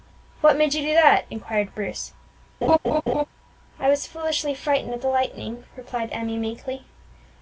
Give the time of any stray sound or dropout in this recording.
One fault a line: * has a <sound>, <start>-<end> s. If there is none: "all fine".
* has a laugh, 2.6-3.3 s